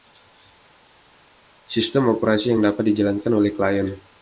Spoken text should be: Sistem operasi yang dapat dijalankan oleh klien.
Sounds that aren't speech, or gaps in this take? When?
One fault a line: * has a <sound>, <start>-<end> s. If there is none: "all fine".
all fine